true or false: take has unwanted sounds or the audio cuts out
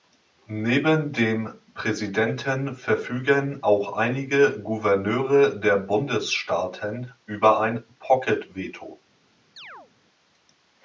true